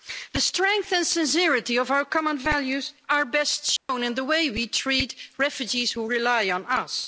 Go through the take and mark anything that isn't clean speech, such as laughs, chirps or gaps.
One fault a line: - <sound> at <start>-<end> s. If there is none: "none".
- dropout at 3.8-3.9 s